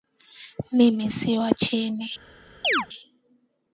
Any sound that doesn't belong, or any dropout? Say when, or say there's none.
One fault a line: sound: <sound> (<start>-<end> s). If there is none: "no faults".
sound: chirp (2.6-2.9 s)